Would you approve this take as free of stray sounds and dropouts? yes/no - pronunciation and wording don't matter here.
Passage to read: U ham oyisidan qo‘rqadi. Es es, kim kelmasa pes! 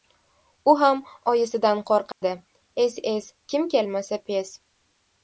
no